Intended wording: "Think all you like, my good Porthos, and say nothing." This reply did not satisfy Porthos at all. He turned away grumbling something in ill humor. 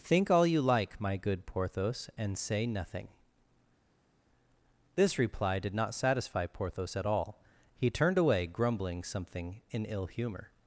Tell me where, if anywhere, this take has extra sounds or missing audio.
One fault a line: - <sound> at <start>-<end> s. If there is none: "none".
none